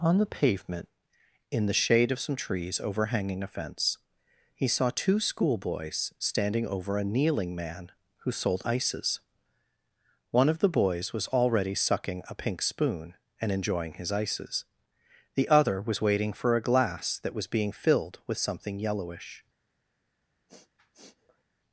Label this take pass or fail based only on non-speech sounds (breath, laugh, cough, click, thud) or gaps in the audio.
fail